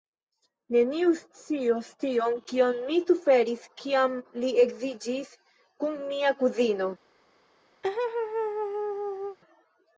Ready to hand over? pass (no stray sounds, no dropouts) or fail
fail